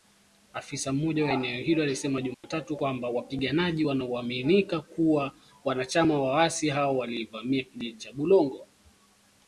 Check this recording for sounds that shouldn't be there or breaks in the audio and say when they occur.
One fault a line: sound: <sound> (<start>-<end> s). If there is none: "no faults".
sound: dropout (2.3-2.4 s)